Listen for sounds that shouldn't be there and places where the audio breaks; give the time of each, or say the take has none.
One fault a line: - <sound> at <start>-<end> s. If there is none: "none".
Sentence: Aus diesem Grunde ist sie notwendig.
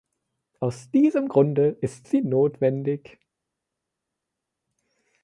none